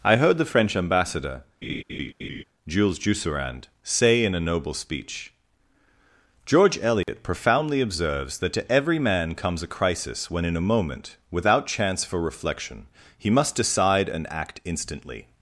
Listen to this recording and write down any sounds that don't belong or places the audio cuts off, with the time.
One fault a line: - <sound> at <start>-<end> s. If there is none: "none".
- laugh at 1.6-2.4 s
- dropout at 7.0-7.1 s